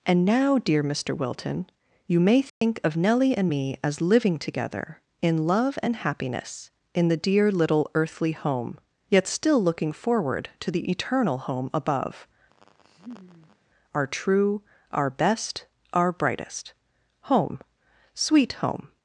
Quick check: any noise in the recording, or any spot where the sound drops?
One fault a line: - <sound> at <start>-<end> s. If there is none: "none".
- dropout at 2.5-2.6 s
- laugh at 12.5-13.6 s